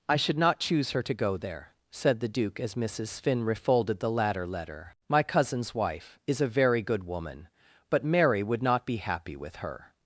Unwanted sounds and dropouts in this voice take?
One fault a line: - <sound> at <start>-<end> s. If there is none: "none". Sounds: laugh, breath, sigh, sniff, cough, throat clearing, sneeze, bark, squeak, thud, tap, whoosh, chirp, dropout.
none